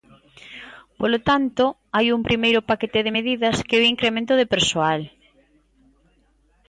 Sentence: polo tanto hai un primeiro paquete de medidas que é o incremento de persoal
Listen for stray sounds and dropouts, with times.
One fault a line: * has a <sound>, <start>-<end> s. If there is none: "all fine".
all fine